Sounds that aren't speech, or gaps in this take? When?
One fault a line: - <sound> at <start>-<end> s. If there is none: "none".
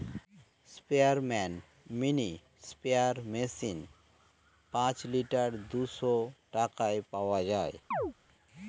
- chirp at 7.9-8.1 s